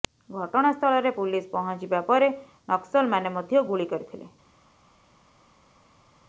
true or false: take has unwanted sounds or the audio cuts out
false